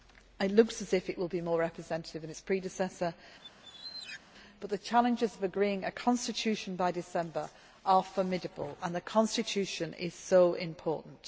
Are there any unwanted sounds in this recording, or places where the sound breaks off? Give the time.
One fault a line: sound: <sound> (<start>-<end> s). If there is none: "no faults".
sound: squeak (3.4-4.2 s)